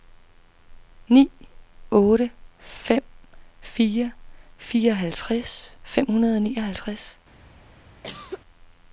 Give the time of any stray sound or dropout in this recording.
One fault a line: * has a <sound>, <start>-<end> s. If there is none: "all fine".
* has a cough, 8.0-8.4 s